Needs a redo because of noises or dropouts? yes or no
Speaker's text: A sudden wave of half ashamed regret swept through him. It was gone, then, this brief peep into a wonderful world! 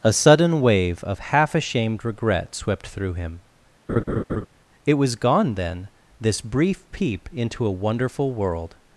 yes